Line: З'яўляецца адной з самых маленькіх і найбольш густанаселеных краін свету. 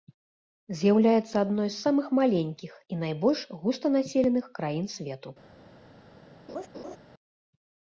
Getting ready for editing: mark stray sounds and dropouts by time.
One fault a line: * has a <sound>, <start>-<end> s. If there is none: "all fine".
* has a laugh, 6.5-7.0 s